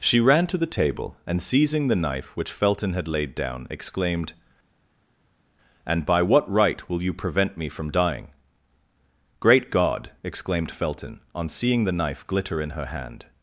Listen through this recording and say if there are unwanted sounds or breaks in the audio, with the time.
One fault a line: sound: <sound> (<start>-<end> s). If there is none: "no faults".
no faults